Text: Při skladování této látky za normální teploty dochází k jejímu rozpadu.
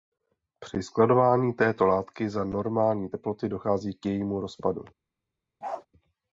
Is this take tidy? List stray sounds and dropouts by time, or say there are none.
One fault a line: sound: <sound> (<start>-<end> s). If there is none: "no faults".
sound: bark (5.6-5.9 s)